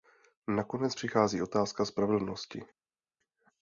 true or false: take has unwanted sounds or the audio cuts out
false